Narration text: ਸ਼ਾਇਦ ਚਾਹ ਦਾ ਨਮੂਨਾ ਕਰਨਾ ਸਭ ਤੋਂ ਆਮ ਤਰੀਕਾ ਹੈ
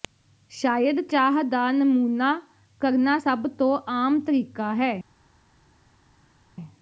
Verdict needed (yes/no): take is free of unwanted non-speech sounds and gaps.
yes